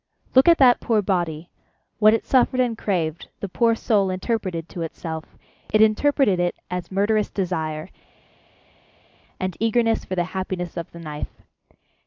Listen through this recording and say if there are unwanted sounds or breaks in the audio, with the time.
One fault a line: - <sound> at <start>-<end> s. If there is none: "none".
none